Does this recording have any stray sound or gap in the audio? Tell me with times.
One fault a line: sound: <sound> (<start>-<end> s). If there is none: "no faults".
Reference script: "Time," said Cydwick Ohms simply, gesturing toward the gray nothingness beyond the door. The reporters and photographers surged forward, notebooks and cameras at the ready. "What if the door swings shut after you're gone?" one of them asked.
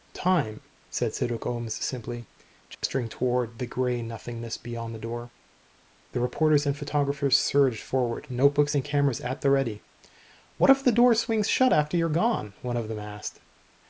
sound: dropout (2.7-2.8 s)